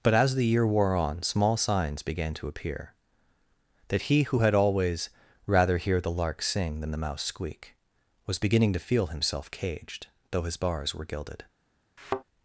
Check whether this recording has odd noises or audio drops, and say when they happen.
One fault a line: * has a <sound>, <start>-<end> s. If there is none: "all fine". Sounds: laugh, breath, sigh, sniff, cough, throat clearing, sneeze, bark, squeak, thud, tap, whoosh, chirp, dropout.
* has a thud, 12.0-12.2 s